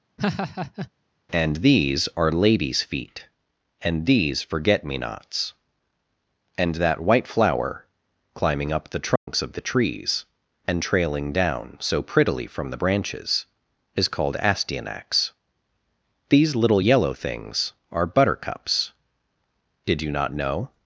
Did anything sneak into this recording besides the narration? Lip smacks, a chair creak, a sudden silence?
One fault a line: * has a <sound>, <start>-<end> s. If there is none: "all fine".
* has a laugh, 0.2-0.9 s
* has a dropout, 9.2-9.3 s